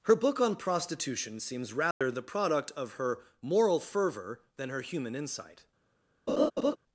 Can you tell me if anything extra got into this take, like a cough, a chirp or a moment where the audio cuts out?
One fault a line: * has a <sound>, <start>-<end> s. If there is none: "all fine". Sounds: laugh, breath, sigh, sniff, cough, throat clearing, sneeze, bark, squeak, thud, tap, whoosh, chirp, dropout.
* has a dropout, 1.9-2.0 s
* has a laugh, 6.3-6.8 s